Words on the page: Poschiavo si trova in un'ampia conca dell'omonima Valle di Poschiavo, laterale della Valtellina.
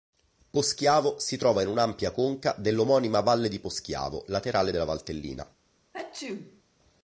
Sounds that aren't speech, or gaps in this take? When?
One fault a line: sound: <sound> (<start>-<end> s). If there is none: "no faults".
sound: sneeze (5.9-6.6 s)